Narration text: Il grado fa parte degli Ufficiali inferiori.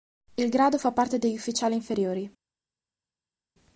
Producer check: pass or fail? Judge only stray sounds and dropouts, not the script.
pass